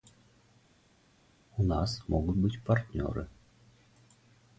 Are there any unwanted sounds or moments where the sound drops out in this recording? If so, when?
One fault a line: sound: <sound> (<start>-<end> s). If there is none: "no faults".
no faults